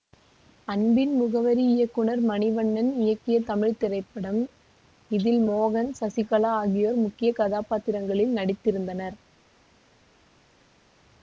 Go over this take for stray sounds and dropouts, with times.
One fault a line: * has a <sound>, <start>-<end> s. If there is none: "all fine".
all fine